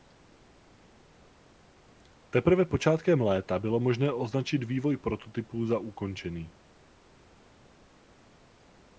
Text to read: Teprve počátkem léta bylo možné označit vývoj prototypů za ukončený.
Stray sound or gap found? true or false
false